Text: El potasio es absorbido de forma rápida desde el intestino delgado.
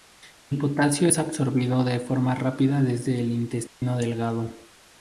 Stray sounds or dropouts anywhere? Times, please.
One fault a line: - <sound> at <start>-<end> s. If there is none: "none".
- dropout at 3.7-3.8 s